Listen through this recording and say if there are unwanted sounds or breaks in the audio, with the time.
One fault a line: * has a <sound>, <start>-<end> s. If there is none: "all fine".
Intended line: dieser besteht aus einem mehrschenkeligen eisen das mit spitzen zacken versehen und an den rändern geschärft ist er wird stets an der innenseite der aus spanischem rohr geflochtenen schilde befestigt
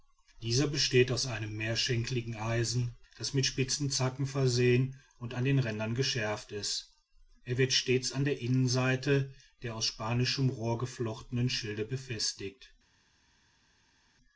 all fine